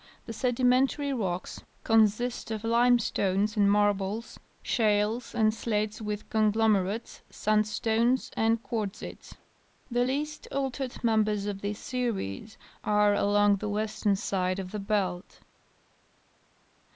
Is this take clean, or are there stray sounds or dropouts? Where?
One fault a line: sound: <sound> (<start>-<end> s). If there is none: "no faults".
no faults